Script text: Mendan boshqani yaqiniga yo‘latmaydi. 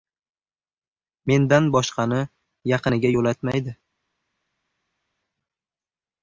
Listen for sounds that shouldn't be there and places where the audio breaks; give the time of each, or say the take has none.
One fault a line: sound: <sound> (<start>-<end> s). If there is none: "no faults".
no faults